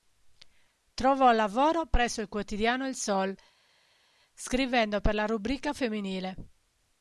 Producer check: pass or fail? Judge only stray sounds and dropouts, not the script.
pass